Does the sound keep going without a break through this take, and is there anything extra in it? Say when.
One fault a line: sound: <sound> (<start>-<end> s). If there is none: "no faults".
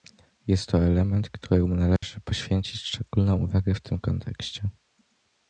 sound: dropout (2.0-2.0 s)